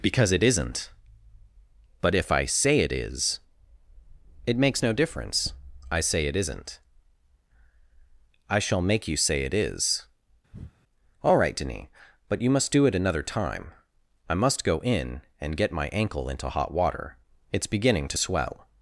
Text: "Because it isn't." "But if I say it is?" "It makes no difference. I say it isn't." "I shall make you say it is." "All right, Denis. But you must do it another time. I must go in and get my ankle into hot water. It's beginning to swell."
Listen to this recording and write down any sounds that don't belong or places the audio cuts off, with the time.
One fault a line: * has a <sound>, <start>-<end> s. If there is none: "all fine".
* has a breath, 10.5-10.7 s